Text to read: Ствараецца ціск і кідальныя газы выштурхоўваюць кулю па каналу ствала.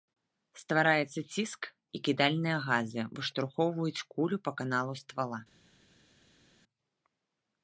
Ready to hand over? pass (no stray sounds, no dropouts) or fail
pass